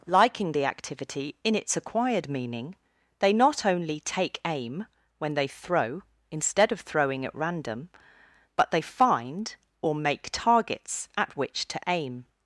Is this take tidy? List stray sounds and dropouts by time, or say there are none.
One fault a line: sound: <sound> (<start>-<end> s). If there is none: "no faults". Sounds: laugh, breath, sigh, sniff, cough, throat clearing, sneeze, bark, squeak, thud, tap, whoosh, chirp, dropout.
no faults